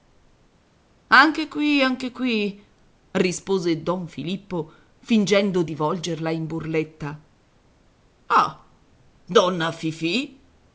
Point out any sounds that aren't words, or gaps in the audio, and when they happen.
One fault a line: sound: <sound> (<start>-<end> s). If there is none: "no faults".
no faults